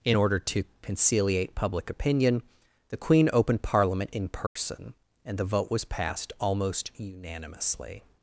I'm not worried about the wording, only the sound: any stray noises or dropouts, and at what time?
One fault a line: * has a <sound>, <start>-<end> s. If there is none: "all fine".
* has a dropout, 4.5-4.6 s